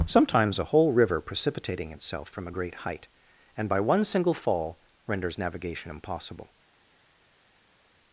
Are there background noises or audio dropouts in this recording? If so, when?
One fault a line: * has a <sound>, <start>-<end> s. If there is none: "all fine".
all fine